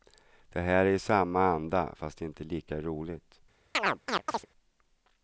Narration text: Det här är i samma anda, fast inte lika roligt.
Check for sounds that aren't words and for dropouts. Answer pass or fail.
fail